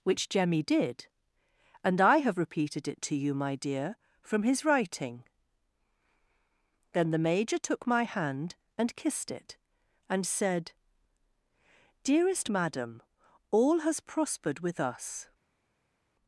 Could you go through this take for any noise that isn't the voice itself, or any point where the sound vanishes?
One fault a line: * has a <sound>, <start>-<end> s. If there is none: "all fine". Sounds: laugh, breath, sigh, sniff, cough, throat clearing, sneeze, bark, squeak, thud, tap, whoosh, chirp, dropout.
all fine